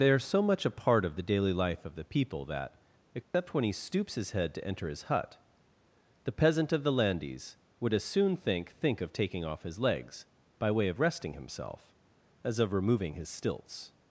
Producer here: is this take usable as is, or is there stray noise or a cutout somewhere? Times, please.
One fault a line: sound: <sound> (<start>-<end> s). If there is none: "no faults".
sound: dropout (3.2-3.3 s)